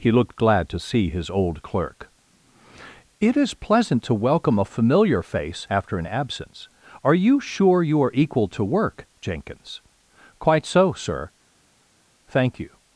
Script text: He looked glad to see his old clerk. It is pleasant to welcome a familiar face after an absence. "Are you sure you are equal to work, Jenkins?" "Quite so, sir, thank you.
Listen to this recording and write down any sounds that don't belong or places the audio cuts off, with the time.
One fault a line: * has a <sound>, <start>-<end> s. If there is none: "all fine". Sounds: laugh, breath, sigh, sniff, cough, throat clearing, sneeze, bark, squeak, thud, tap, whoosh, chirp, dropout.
all fine